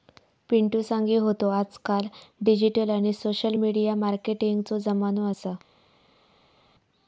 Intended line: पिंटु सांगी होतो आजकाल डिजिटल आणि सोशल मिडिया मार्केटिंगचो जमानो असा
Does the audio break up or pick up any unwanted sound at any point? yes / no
no